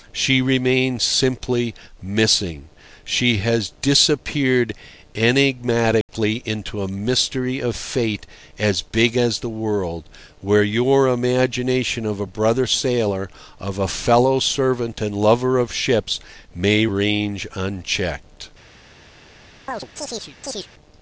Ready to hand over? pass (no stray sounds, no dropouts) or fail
fail